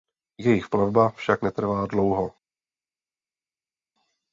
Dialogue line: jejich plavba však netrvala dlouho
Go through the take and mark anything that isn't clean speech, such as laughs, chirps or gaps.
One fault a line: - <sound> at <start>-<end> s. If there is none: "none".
none